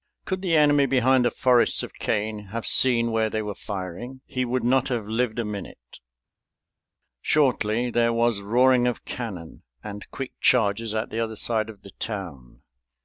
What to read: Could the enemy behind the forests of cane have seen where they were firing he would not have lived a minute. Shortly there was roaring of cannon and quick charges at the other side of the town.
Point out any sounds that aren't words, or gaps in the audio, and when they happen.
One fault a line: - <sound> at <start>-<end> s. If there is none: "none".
none